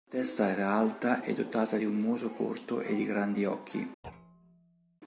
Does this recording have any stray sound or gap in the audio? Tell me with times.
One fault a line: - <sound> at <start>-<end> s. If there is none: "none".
- thud at 4.0-5.0 s